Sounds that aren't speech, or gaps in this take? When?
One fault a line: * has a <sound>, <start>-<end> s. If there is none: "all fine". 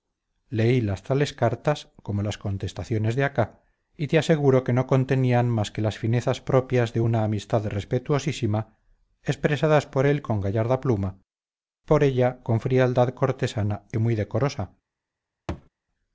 * has a thud, 15.5-15.7 s